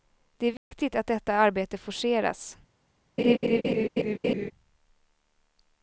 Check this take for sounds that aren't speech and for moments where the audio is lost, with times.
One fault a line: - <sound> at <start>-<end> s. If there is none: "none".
- dropout at 0.6-0.7 s
- laugh at 3.2-4.5 s